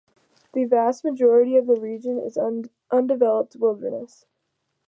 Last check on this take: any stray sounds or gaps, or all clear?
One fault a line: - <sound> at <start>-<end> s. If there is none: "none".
none